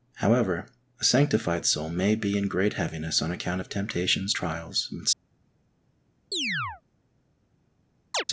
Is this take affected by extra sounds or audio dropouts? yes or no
yes